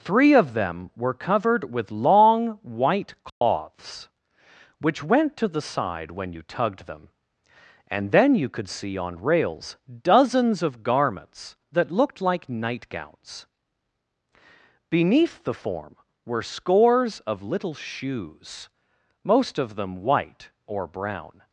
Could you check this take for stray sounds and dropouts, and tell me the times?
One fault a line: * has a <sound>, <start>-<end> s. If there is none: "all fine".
* has a dropout, 3.3-3.4 s